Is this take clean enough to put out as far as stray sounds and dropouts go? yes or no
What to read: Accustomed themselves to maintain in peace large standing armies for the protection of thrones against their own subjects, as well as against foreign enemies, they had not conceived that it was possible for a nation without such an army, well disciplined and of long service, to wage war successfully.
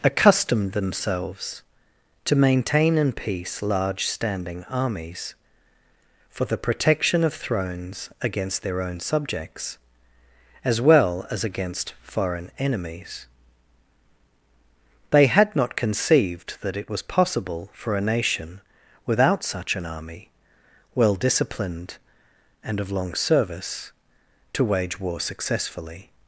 yes